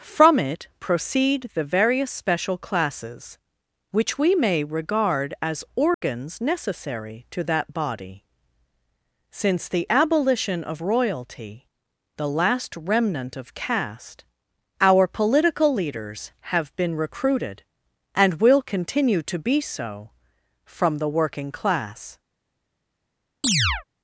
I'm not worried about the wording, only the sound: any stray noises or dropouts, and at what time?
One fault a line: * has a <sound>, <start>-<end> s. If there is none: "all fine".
* has a dropout, 5.9-6.0 s
* has a chirp, 23.4-23.8 s